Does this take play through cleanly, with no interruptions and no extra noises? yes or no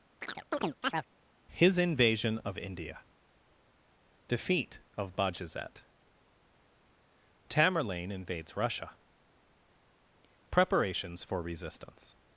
no